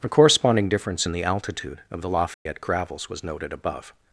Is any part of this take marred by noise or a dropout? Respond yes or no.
yes